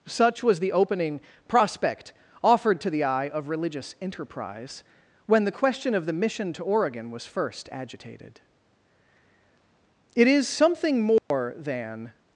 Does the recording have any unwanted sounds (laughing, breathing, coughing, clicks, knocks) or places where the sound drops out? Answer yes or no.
yes